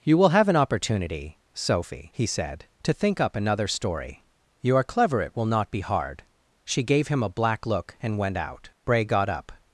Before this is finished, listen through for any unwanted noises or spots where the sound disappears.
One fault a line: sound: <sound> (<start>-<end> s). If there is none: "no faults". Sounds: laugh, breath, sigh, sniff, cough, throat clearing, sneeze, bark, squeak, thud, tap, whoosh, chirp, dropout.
no faults